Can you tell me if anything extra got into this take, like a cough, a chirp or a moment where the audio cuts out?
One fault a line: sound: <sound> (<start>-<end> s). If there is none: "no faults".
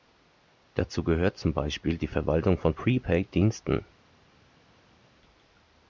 no faults